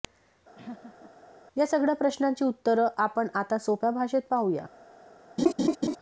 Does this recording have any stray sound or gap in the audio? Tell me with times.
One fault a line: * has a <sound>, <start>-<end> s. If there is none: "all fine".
* has a laugh, 0.5-1.1 s
* has a laugh, 5.4-6.0 s